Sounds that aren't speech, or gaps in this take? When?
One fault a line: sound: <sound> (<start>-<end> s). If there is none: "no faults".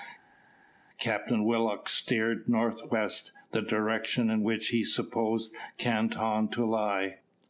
no faults